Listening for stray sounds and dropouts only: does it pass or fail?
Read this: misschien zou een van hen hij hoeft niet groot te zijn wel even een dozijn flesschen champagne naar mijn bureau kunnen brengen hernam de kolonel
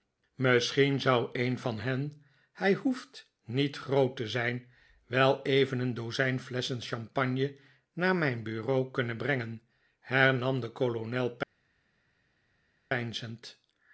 pass